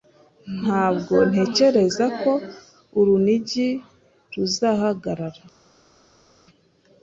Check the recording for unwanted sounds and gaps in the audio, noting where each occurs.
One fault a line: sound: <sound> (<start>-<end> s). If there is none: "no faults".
no faults